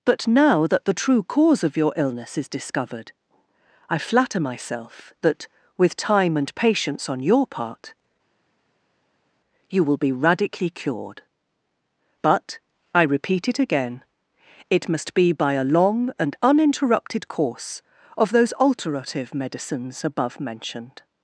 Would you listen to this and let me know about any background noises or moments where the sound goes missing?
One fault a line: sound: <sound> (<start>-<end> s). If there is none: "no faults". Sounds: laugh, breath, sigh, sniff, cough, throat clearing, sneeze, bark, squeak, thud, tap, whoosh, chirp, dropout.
no faults